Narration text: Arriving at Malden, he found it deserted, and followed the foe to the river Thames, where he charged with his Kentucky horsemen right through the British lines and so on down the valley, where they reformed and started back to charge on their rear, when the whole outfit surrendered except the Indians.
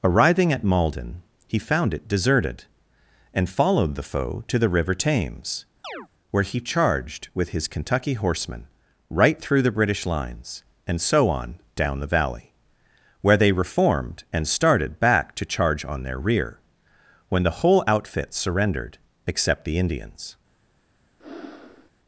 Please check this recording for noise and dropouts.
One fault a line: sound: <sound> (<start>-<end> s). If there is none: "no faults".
sound: chirp (5.8-6.1 s)
sound: breath (21.2-21.9 s)